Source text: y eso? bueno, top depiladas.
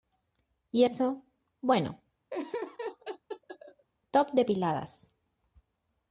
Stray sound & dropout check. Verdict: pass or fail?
fail